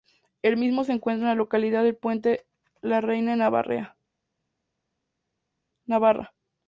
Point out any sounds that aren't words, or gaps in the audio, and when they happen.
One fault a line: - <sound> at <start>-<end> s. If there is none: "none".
none